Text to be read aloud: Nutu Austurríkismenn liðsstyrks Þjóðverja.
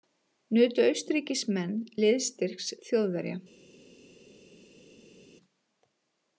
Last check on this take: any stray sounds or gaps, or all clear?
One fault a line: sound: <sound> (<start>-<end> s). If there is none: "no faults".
no faults